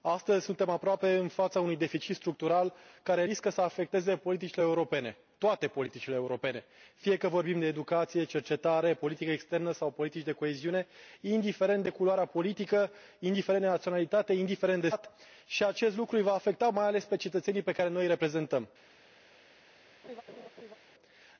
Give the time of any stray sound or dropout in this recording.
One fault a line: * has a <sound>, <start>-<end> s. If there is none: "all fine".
* has a laugh, 20.0-20.8 s